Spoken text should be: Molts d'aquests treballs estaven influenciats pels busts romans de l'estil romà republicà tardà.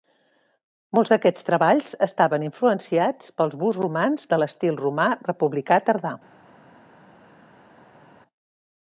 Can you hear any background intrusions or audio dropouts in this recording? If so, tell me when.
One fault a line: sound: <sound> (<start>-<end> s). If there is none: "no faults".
no faults